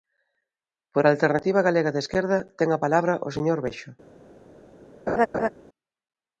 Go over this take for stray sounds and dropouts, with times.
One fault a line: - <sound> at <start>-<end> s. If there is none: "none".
- laugh at 5.1-5.5 s